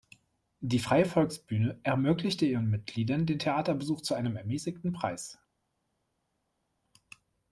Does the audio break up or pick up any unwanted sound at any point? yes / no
no